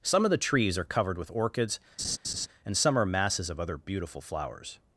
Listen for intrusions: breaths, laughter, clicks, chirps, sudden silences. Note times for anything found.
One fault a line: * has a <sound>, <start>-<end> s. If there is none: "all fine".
* has a laugh, 2.0-2.5 s